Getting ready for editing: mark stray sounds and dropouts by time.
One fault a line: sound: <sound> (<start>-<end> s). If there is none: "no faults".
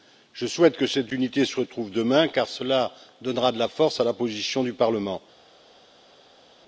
no faults